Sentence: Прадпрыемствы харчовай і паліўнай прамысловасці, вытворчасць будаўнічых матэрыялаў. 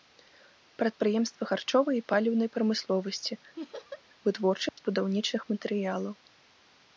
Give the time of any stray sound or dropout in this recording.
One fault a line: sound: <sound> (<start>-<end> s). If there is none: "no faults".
sound: laugh (3.6-4.0 s)
sound: dropout (4.7-4.8 s)